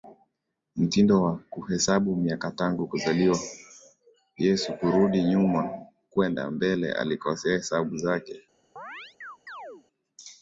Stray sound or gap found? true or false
true